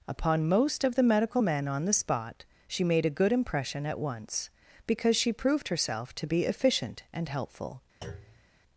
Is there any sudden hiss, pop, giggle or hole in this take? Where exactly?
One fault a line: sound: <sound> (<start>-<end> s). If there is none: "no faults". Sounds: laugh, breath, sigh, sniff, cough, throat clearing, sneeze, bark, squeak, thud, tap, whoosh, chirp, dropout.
sound: thud (8.0-8.5 s)